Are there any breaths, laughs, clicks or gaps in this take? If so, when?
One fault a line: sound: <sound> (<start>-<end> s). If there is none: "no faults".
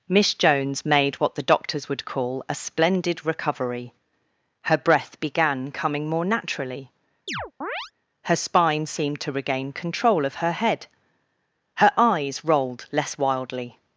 sound: chirp (7.3-7.9 s)